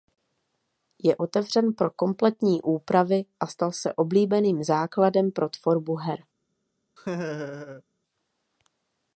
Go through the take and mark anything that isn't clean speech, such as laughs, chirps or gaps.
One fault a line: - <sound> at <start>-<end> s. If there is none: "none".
- laugh at 7.0-7.8 s